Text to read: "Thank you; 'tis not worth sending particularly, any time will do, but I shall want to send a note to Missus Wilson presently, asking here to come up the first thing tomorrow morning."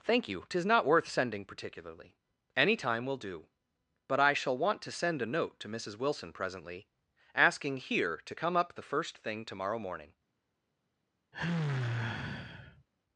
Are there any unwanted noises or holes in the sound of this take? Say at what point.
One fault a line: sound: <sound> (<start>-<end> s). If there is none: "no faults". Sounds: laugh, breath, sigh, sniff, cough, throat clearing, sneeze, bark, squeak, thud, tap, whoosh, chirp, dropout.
sound: sigh (11.3-12.9 s)